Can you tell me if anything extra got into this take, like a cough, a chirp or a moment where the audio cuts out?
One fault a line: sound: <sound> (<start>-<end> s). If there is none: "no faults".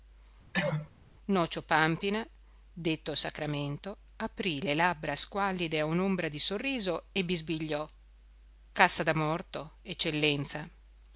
sound: cough (0.5-0.9 s)